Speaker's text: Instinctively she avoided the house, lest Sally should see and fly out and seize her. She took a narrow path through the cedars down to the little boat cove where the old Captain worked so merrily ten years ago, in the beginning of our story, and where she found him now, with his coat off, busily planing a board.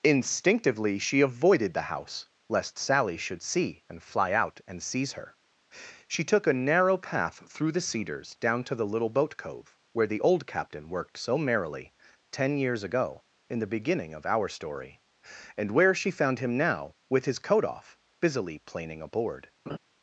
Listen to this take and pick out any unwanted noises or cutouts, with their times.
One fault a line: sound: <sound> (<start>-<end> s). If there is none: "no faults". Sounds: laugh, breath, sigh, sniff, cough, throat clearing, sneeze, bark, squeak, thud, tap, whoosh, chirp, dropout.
sound: laugh (19.7-19.8 s)